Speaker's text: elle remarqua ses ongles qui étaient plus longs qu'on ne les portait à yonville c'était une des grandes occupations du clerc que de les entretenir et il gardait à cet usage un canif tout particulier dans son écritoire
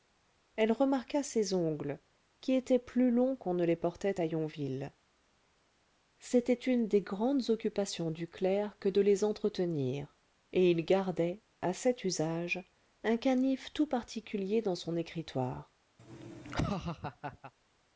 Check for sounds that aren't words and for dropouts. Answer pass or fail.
fail